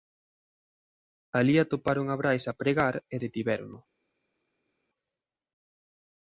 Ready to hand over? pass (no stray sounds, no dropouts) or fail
pass